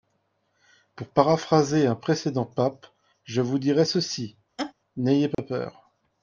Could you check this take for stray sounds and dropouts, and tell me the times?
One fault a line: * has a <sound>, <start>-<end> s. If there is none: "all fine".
* has a laugh, 4.6-4.7 s
* has a dropout, 5.3-5.4 s